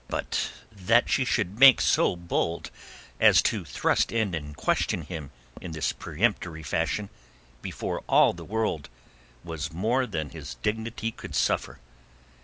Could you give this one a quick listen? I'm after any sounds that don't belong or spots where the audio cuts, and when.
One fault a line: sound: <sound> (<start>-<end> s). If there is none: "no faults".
no faults